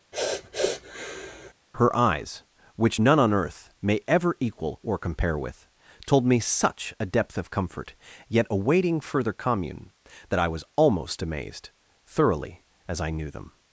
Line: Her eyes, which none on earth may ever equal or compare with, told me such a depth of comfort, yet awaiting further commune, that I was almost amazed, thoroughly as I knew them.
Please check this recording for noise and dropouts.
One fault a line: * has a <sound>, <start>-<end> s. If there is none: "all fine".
* has a sniff, 0.1-1.5 s